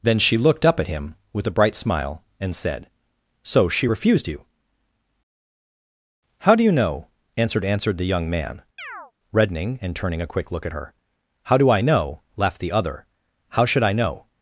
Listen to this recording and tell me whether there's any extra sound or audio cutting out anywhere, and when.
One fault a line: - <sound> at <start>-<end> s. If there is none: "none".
- chirp at 8.8-9.1 s